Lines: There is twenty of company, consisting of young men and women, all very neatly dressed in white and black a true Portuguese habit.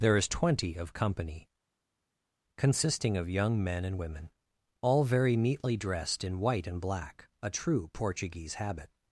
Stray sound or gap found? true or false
false